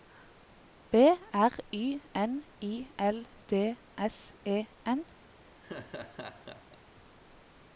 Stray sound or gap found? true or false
true